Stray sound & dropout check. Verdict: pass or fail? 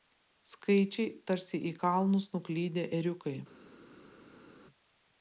pass